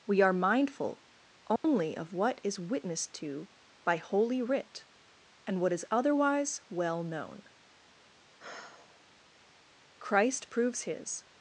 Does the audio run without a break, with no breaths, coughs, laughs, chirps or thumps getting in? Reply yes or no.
no